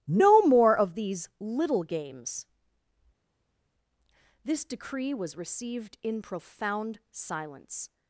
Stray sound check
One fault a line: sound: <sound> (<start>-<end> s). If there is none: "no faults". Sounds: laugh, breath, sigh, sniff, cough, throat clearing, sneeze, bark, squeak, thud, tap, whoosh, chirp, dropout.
no faults